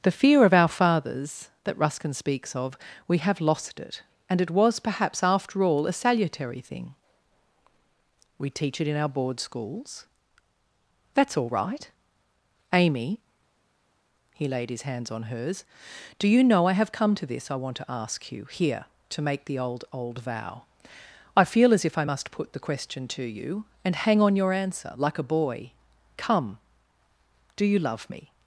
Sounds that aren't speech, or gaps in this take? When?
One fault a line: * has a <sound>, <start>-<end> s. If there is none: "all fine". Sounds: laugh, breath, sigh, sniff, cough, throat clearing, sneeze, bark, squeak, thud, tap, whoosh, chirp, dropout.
all fine